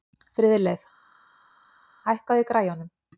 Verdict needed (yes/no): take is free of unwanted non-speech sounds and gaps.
yes